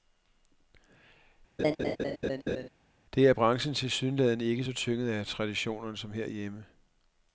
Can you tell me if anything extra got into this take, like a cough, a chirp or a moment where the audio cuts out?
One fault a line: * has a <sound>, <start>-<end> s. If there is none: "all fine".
* has a laugh, 1.6-2.7 s